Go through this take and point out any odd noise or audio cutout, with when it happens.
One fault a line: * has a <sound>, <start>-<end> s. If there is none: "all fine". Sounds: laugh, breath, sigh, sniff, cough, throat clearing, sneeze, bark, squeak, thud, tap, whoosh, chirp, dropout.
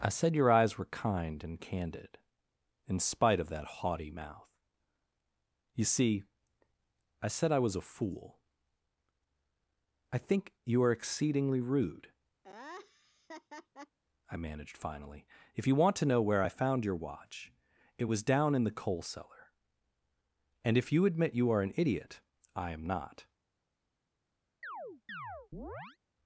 * has a laugh, 12.4-14.0 s
* has a chirp, 24.6-26.0 s